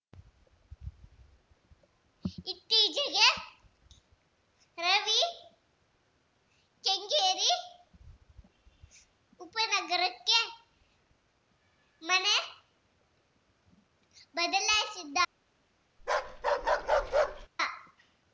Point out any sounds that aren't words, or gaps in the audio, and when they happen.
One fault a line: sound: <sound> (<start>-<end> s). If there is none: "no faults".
sound: bark (16.0-17.5 s)